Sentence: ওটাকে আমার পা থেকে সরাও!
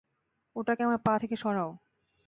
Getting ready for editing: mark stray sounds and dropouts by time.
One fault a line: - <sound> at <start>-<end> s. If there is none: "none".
none